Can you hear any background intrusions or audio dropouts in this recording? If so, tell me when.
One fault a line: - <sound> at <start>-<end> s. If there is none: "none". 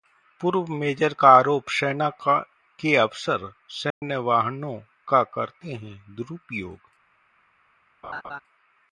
- dropout at 3.9-4.0 s
- laugh at 8.0-8.4 s